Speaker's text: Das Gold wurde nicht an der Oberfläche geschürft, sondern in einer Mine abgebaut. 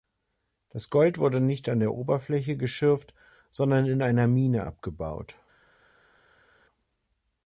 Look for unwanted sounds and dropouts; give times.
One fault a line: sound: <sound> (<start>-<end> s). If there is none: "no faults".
no faults